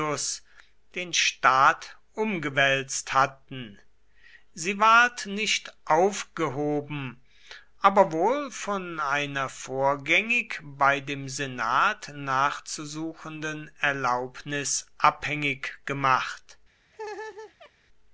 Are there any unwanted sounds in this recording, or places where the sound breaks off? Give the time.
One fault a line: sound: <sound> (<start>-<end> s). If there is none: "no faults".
sound: laugh (16.9-17.7 s)